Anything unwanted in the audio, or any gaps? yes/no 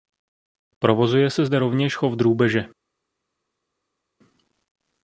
no